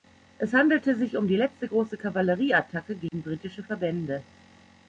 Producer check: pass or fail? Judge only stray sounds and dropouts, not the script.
fail